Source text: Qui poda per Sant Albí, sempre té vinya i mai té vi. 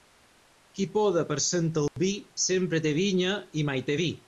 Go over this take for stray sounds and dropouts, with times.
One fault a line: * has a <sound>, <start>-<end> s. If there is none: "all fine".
* has a dropout, 1.9-2.0 s